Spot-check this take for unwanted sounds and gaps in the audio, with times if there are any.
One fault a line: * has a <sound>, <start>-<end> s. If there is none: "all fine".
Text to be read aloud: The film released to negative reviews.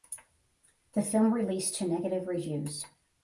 all fine